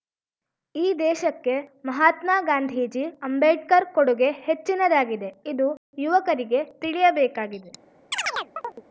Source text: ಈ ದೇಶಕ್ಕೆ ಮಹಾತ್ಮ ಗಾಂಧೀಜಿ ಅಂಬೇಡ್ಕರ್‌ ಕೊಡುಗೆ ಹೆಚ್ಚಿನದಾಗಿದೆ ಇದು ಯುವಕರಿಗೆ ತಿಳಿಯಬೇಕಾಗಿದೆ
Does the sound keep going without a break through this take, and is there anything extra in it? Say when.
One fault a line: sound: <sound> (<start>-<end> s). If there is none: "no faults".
sound: chirp (8.1-8.8 s)